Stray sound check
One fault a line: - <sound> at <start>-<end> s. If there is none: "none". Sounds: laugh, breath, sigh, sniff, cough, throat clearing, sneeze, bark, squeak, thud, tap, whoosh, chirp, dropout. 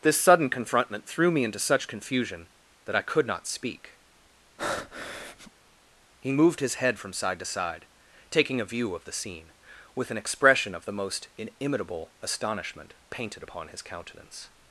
- breath at 4.6-5.5 s